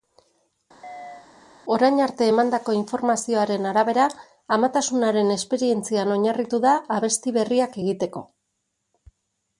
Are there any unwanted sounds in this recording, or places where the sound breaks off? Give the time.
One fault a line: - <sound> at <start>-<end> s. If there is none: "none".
- chirp at 0.8-1.3 s